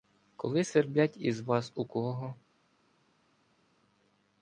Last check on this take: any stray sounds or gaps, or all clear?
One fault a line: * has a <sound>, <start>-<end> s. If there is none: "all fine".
all fine